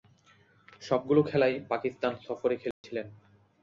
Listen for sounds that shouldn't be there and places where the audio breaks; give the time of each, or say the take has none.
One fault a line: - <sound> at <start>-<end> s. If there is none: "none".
- dropout at 2.7-2.8 s